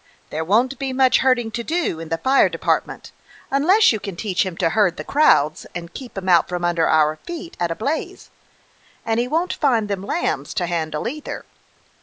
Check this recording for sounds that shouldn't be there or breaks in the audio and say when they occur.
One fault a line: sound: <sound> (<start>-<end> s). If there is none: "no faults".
no faults